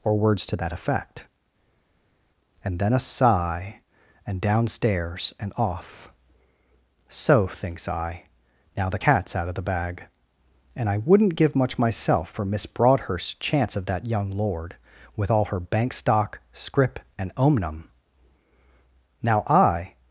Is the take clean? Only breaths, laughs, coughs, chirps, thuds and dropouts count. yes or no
yes